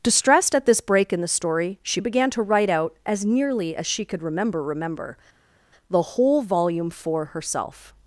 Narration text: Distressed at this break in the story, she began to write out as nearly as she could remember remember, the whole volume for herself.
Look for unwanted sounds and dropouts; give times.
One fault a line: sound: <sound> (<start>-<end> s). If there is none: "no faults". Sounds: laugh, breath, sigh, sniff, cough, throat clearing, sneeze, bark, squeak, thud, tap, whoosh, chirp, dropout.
no faults